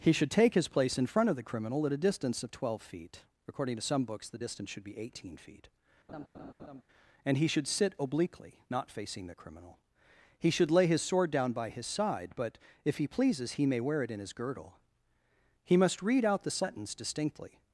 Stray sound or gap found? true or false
true